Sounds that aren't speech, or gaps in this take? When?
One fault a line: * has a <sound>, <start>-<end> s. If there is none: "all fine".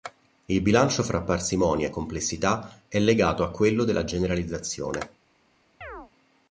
* has a chirp, 5.8-6.1 s